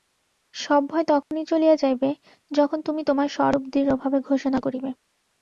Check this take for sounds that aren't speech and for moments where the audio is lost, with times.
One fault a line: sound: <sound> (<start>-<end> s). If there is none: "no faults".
sound: dropout (1.2-1.3 s)